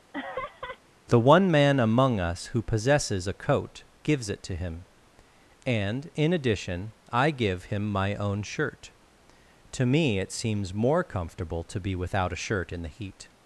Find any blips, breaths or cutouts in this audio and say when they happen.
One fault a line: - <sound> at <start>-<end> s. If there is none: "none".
- laugh at 0.1-0.8 s